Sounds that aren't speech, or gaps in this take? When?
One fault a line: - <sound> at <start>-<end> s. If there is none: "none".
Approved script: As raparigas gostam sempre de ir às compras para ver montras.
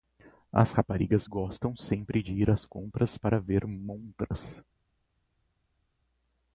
none